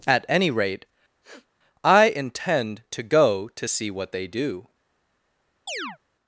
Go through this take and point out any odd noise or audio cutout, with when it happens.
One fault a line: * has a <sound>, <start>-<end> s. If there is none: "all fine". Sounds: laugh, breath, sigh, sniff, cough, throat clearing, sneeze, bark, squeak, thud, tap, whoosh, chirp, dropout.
* has a sniff, 1.2-1.5 s
* has a chirp, 5.7-6.0 s